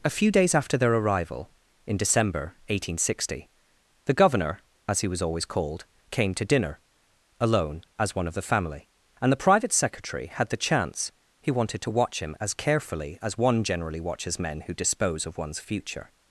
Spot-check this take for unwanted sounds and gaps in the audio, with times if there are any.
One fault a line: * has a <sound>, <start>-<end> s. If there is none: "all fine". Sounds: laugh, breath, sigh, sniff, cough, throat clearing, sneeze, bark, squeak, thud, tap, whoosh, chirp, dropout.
all fine